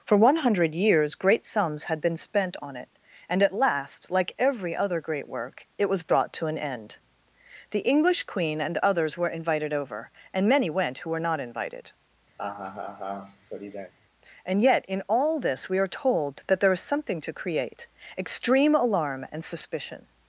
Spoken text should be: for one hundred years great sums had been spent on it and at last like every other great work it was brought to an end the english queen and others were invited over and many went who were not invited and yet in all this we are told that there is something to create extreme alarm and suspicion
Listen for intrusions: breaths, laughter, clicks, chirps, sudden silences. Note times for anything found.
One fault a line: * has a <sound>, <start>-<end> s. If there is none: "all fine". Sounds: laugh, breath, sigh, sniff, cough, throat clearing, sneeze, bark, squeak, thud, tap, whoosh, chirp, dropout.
* has a laugh, 12.4-13.9 s